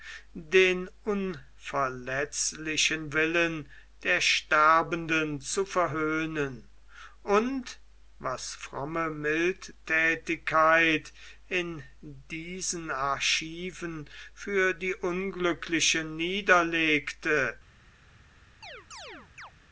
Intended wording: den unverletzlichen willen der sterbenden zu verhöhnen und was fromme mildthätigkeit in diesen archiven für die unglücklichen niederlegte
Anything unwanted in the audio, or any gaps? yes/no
yes